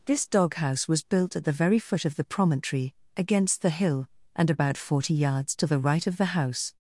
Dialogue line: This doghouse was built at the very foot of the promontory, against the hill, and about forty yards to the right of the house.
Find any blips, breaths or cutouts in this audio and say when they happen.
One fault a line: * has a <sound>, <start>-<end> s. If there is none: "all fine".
all fine